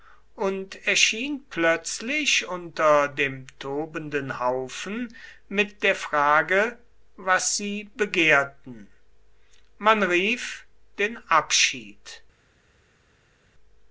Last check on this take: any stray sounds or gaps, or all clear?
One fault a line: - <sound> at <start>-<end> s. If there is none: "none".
none